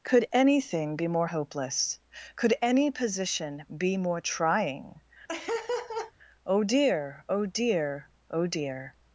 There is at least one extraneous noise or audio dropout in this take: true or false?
true